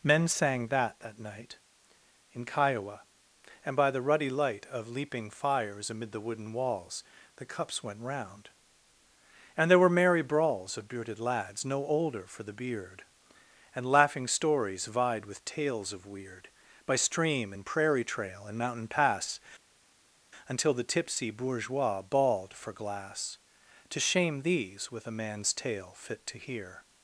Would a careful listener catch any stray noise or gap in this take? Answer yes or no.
no